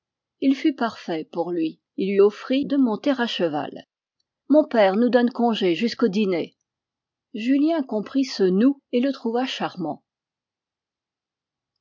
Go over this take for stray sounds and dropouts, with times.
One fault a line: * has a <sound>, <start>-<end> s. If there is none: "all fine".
all fine